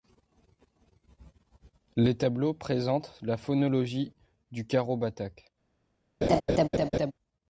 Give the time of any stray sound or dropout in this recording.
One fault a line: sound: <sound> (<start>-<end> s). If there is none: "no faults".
sound: laugh (6.2-7.1 s)